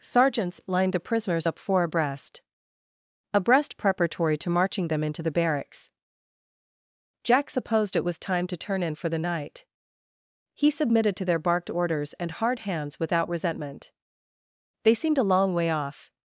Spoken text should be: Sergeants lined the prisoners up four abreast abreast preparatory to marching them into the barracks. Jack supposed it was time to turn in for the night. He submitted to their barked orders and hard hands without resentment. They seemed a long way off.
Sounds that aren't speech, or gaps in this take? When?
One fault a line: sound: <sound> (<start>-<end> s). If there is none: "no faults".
no faults